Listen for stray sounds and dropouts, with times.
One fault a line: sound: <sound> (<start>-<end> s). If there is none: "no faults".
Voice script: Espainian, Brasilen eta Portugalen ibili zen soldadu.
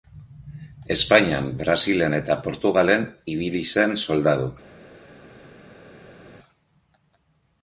no faults